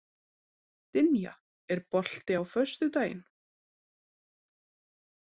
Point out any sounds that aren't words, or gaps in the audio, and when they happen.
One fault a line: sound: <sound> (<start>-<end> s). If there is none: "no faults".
no faults